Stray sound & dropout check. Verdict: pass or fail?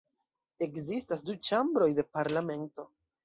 pass